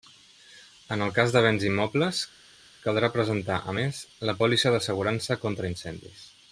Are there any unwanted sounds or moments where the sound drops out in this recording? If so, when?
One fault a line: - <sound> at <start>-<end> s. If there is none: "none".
none